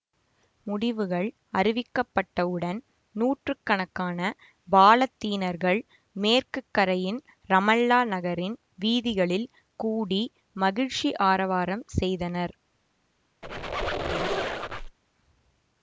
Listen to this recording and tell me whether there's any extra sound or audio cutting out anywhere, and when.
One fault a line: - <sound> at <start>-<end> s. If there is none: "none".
- squeak at 13.4-15.0 s